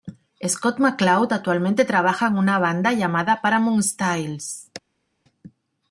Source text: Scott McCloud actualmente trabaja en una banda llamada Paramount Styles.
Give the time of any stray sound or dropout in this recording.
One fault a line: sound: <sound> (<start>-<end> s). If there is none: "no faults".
no faults